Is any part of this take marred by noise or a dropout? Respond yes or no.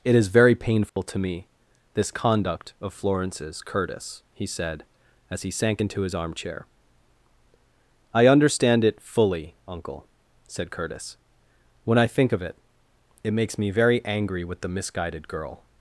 yes